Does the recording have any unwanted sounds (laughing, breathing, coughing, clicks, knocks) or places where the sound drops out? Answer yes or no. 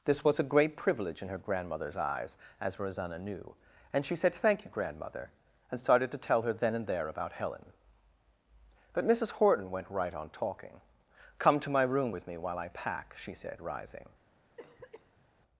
yes